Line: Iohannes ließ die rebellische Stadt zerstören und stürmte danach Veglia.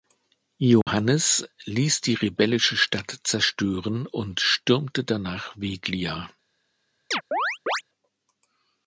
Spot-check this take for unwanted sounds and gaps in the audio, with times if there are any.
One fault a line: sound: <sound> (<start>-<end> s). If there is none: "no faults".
sound: dropout (0.8-0.9 s)
sound: chirp (7.1-7.8 s)